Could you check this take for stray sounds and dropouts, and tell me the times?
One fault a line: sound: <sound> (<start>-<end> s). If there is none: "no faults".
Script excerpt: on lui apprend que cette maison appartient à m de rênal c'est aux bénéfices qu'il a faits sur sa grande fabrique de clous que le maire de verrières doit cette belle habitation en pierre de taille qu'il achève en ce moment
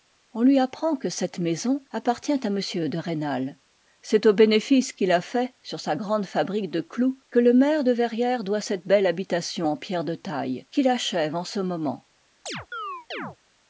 sound: chirp (12.5-13.4 s)